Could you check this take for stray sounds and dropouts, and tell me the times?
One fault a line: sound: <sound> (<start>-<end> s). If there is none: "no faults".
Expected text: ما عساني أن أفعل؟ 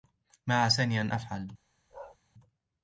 sound: bark (1.9-2.2 s)